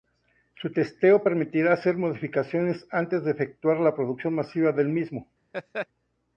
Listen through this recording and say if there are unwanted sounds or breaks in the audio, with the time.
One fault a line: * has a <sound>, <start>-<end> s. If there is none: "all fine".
* has a laugh, 5.5-5.9 s